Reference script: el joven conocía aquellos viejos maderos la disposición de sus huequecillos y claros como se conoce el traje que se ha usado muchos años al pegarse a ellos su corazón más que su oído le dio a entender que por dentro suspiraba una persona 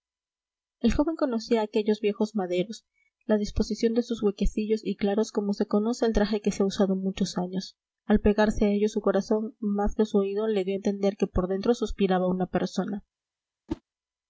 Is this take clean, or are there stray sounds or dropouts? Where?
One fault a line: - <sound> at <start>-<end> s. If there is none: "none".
- whoosh at 13.7-13.8 s